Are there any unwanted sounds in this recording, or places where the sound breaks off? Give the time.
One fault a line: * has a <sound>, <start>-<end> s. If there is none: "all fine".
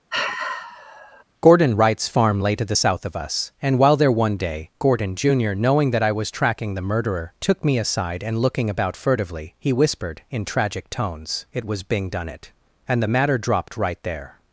* has a sigh, 0.1-1.2 s